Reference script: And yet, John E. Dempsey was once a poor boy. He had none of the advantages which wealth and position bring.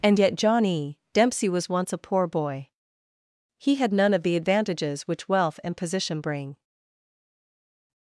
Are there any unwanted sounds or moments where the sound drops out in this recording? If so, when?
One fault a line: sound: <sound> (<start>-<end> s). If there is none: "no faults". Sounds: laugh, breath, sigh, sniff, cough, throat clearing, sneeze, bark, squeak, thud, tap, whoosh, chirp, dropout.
no faults